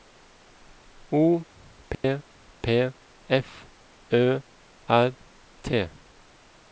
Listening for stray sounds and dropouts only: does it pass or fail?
fail